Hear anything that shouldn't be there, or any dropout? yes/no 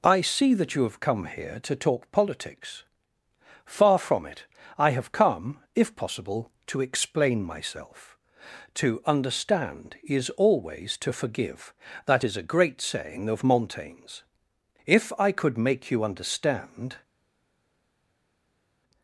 no